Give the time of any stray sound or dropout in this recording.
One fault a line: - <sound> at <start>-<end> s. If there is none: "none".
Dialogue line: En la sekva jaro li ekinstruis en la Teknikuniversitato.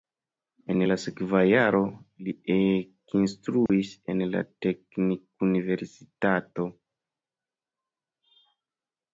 - dropout at 3.7-3.7 s